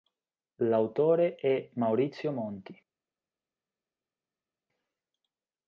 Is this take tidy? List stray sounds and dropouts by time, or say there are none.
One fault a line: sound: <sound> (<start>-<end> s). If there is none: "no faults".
no faults